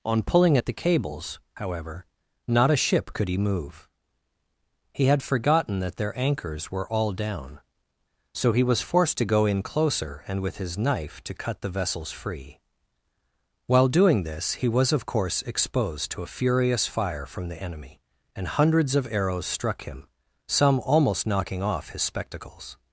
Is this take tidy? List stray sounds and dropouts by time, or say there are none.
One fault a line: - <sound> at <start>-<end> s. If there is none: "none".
none